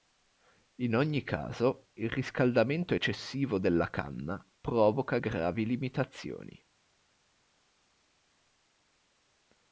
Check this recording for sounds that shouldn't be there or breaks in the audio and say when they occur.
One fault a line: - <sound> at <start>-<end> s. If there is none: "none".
none